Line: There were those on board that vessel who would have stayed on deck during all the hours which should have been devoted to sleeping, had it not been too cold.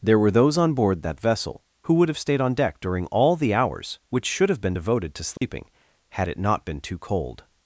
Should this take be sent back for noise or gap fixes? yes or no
yes